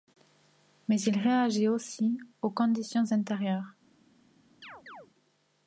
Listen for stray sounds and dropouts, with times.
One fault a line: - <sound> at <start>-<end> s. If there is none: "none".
- chirp at 4.6-5.1 s